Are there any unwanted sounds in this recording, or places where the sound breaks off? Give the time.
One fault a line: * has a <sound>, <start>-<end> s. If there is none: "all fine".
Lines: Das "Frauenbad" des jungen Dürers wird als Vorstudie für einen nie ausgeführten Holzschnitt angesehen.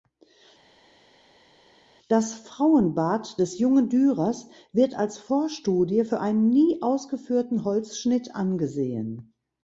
all fine